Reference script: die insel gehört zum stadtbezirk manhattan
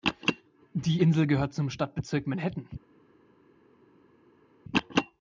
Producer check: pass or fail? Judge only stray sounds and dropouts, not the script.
pass